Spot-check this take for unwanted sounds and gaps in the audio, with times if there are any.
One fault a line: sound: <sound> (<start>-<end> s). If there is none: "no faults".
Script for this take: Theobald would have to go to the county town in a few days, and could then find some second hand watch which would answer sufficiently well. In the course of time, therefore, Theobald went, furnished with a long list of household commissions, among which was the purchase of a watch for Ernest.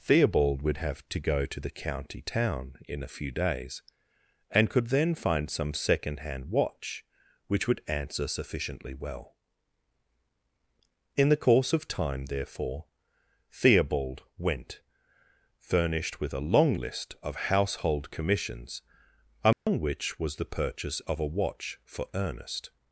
sound: dropout (19.5-19.7 s)